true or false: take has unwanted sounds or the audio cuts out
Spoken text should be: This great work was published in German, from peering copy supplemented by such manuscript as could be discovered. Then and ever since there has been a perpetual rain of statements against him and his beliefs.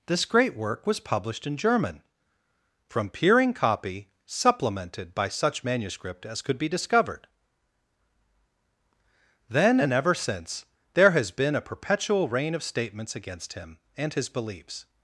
false